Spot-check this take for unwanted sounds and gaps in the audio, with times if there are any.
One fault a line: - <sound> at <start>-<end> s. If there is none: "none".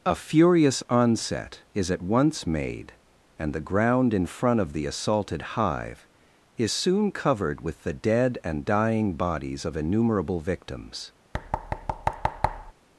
- thud at 11.3-12.7 s